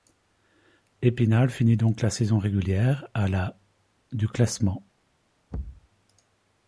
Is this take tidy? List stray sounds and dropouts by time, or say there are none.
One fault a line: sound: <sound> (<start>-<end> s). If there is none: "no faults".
sound: thud (5.5-5.9 s)